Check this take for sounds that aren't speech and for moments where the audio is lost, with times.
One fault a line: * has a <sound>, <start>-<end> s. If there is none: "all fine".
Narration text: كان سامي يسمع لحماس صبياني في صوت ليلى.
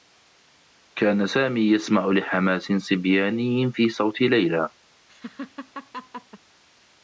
* has a laugh, 5.1-6.4 s